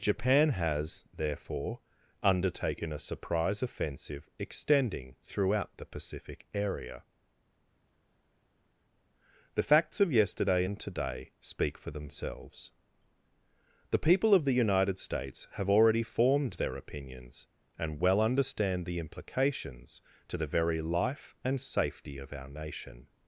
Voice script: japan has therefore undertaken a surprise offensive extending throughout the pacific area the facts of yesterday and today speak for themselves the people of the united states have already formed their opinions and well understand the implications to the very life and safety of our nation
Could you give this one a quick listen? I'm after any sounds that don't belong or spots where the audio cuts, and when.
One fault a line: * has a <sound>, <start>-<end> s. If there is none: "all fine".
all fine